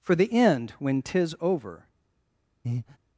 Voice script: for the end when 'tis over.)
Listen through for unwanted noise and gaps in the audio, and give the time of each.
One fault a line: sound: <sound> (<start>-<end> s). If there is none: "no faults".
sound: breath (2.6-3.0 s)